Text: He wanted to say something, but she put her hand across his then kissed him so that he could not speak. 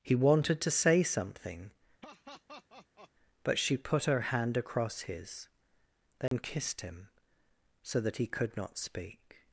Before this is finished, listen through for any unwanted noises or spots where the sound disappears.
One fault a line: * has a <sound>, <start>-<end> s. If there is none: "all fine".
* has a laugh, 2.0-3.1 s
* has a dropout, 6.3-6.3 s